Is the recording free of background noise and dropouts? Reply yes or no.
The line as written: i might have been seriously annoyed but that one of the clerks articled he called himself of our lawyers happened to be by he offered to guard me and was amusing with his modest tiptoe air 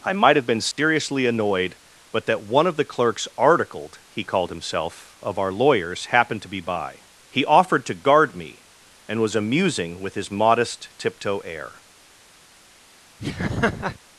no